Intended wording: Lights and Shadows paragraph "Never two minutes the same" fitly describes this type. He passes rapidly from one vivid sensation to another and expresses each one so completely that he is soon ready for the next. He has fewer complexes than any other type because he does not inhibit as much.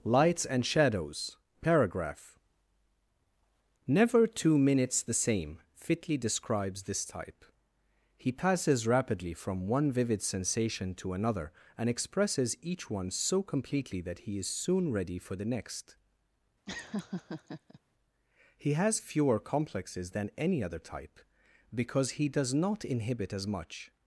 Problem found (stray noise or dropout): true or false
true